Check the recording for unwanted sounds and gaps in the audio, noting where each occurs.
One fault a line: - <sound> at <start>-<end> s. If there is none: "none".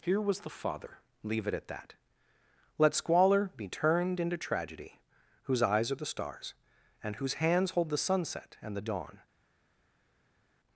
none